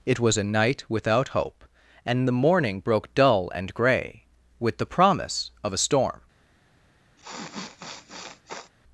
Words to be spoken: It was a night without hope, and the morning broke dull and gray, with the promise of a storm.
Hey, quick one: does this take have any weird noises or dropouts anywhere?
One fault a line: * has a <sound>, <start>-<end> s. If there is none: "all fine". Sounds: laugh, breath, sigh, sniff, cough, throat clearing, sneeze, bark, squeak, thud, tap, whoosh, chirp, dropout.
* has a sniff, 7.2-8.7 s